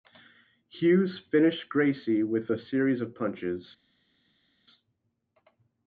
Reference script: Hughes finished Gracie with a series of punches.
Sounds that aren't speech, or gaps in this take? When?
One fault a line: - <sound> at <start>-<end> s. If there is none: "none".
none